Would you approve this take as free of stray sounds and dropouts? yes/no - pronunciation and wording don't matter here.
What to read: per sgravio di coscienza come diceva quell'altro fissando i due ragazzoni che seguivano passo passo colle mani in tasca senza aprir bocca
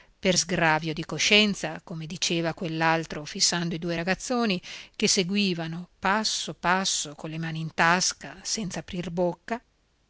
yes